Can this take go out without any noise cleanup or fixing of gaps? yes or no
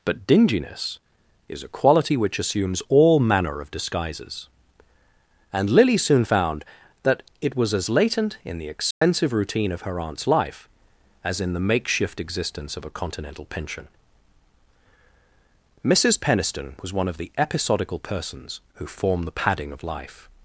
no